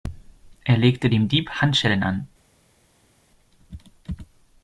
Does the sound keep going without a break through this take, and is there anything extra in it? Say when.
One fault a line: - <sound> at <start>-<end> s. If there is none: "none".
none